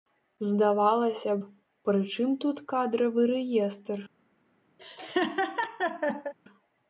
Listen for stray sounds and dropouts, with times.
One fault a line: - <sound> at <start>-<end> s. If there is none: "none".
- laugh at 4.8-6.3 s